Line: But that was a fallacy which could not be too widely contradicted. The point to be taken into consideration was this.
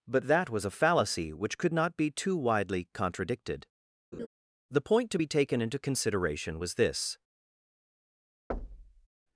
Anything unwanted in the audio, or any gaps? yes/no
yes